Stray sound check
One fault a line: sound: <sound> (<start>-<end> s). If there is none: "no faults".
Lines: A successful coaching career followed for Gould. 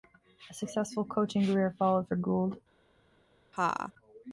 sound: laugh (3.5-3.9 s)